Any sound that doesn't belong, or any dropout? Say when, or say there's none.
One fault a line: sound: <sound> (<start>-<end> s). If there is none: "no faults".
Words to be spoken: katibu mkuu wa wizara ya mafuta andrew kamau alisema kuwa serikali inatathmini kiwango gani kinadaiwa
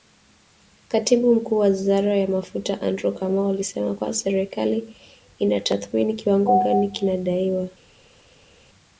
no faults